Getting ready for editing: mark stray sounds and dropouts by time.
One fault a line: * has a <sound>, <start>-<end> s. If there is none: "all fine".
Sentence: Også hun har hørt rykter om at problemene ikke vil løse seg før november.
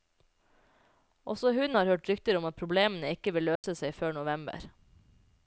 * has a dropout, 3.6-3.6 s